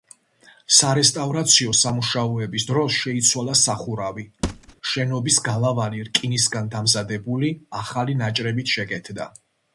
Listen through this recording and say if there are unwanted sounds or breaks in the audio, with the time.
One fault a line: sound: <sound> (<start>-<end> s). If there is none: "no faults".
sound: thud (4.4-4.7 s)